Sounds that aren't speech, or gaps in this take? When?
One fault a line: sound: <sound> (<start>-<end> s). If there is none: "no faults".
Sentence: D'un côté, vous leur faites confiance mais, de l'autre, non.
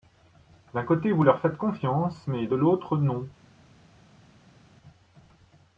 no faults